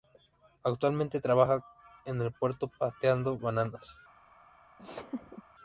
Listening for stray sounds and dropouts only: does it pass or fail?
fail